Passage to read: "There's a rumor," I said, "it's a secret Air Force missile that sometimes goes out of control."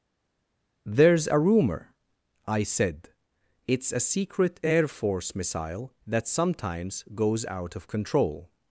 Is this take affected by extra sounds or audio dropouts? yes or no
no